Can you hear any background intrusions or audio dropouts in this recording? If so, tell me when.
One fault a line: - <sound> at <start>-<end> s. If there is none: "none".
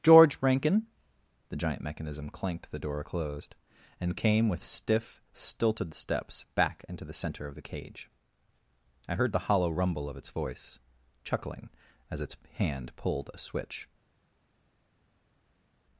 none